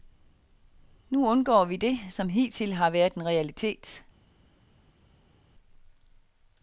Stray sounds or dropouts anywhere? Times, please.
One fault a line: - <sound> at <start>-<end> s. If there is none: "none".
none